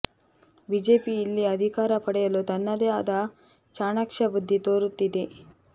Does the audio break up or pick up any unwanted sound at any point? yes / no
no